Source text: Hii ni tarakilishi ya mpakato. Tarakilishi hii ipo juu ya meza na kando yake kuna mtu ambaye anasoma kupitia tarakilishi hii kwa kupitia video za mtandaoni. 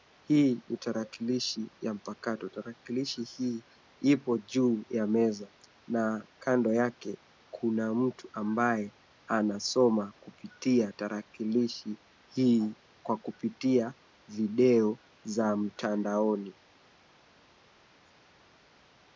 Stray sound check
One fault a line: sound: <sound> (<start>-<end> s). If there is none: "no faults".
no faults